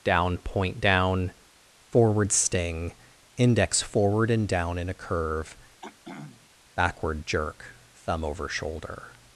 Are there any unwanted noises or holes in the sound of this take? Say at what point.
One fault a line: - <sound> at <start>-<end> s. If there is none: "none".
- throat clearing at 5.8-6.5 s